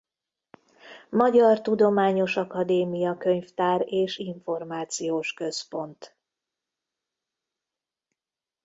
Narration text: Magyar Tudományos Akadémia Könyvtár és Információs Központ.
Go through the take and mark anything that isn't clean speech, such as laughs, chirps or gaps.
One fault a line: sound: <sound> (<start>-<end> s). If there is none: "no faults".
no faults